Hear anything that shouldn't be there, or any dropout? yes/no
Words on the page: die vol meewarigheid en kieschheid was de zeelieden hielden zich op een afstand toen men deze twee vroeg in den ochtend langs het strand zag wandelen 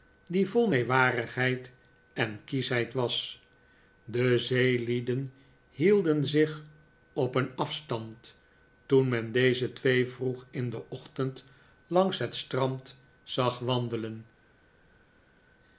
no